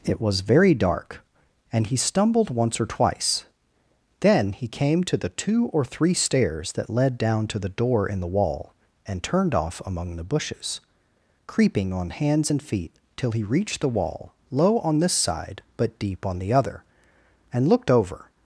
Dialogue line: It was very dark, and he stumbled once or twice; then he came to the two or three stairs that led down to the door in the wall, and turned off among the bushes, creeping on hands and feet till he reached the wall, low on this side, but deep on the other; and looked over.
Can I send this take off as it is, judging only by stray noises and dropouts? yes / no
yes